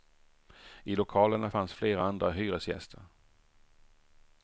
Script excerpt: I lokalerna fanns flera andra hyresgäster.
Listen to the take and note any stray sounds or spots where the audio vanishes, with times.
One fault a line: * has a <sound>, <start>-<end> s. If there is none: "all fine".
all fine